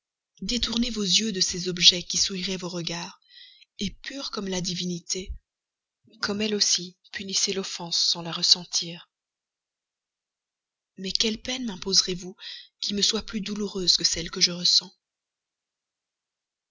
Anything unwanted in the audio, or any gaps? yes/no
no